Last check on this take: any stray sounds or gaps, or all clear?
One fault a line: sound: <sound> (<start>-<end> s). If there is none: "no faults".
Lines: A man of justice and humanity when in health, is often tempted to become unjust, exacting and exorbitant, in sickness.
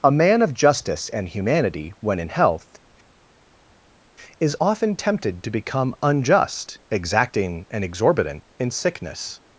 no faults